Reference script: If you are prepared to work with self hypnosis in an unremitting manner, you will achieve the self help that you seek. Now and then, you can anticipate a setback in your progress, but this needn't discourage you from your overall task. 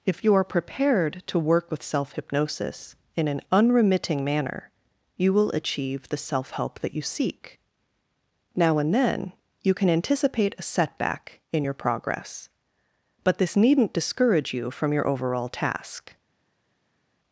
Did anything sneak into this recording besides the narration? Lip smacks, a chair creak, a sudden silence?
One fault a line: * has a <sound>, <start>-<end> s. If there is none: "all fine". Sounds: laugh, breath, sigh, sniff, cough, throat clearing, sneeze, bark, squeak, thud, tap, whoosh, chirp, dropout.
all fine